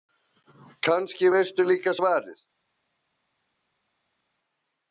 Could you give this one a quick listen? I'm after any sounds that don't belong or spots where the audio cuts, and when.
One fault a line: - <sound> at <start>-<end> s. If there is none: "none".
none